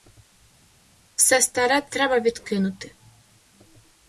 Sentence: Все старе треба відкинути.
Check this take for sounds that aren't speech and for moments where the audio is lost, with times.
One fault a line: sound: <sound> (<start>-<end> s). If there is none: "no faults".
no faults